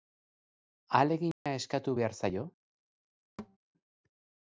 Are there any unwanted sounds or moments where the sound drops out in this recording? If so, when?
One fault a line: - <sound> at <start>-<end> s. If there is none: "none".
- dropout at 1.3-1.5 s
- thud at 3.4-3.6 s